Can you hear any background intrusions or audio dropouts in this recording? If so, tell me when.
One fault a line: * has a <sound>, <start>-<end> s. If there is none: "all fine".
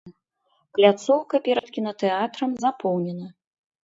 * has a dropout, 1.6-1.6 s